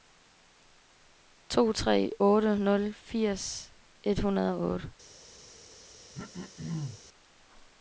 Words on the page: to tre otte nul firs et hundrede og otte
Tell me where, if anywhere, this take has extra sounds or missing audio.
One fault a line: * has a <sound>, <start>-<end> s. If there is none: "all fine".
* has a throat clearing, 6.1-7.0 s